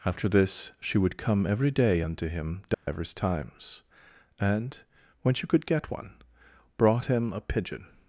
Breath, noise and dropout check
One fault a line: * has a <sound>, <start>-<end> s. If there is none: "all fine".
* has a dropout, 2.7-2.9 s